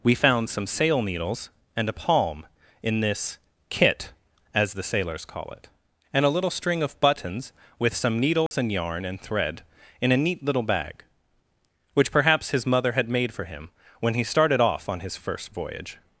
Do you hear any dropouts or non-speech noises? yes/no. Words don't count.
yes